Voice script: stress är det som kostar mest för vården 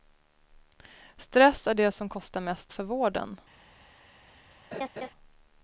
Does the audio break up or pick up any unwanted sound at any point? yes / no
yes